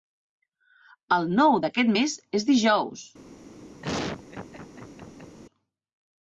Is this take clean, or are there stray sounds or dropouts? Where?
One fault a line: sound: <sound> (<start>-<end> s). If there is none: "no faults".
sound: laugh (3.8-5.4 s)